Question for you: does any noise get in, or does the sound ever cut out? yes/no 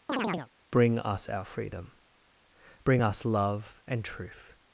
yes